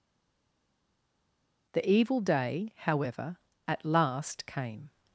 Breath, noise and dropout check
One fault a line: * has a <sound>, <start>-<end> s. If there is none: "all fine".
all fine